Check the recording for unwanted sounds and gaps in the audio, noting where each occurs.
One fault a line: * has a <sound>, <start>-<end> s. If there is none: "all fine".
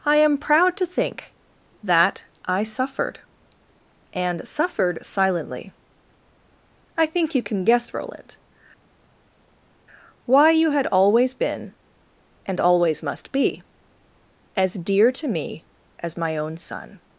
all fine